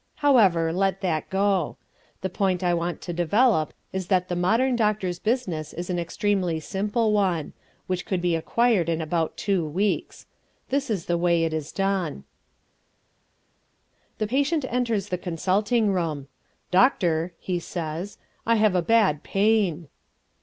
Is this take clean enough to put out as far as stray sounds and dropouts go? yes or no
yes